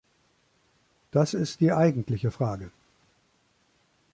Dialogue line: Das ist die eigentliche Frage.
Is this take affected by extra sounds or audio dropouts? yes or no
no